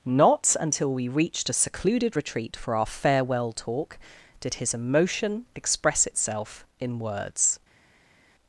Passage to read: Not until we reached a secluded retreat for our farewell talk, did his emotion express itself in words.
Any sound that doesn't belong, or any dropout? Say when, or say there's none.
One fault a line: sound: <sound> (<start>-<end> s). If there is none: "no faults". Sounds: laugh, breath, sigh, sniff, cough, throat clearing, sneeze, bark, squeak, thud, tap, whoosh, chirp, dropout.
no faults